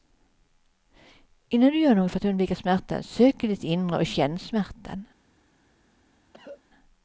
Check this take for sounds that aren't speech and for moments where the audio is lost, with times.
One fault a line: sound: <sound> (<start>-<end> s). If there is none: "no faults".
sound: cough (6.3-6.6 s)